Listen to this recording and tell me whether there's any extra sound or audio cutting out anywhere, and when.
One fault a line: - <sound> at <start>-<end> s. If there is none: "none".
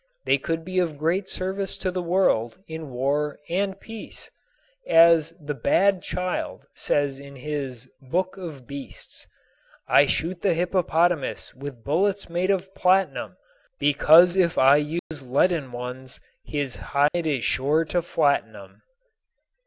- dropout at 15.0-15.1 s
- dropout at 17.1-17.1 s